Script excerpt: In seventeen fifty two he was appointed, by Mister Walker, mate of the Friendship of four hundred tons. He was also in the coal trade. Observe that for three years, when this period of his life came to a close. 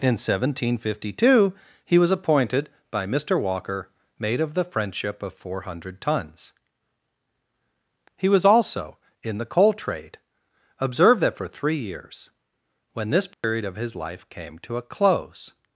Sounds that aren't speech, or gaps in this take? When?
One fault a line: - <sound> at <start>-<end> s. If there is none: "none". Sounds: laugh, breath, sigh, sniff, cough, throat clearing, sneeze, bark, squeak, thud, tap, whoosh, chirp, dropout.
- dropout at 13.3-13.4 s